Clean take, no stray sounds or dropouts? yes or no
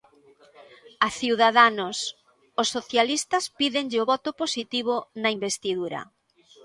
yes